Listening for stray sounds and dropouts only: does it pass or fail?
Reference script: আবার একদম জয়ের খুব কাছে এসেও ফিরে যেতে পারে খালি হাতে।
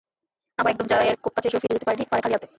fail